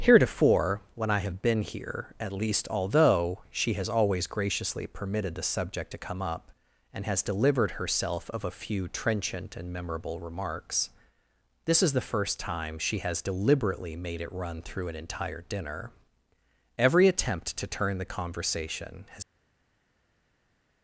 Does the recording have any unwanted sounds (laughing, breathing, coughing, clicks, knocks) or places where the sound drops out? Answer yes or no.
no